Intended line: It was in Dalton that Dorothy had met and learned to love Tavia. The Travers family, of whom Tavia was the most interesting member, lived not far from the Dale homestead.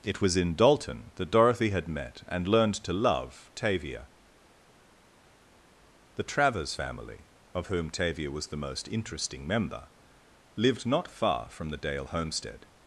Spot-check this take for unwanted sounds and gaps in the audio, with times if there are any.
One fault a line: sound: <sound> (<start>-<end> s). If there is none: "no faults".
no faults